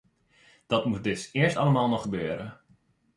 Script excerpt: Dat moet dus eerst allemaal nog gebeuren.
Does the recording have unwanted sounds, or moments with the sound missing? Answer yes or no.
no